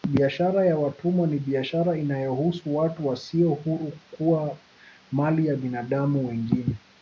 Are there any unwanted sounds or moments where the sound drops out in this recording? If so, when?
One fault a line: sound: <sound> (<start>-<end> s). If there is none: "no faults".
no faults